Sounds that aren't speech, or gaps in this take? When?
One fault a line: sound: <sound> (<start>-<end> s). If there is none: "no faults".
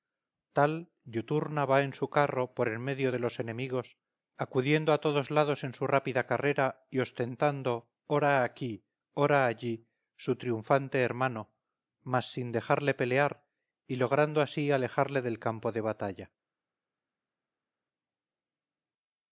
no faults